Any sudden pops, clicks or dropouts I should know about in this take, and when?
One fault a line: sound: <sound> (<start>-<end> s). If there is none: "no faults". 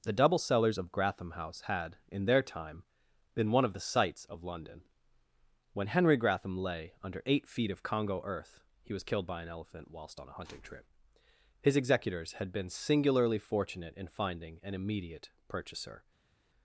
no faults